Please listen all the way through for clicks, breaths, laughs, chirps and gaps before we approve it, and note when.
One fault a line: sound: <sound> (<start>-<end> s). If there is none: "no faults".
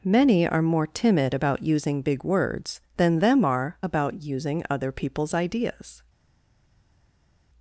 no faults